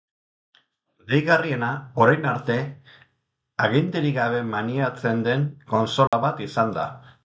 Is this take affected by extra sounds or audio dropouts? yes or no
yes